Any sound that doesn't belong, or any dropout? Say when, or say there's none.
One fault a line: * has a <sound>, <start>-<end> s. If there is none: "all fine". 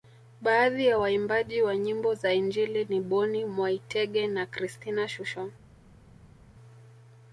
all fine